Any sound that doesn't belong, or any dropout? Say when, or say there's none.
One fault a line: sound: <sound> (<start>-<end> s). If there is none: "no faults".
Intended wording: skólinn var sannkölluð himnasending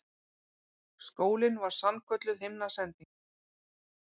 no faults